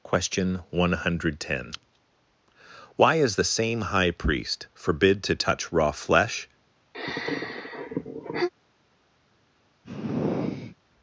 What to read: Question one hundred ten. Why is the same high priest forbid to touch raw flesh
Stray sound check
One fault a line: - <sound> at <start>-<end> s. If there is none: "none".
- sigh at 6.9-8.5 s
- sigh at 9.8-10.8 s